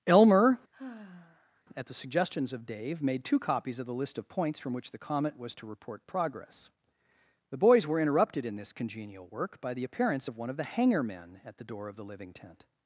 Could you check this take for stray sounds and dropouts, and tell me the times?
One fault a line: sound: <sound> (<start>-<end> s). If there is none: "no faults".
sound: sigh (0.7-1.6 s)